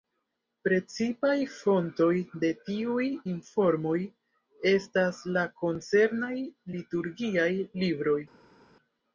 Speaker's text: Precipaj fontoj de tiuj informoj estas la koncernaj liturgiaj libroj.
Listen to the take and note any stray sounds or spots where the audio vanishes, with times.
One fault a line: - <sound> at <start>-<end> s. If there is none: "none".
none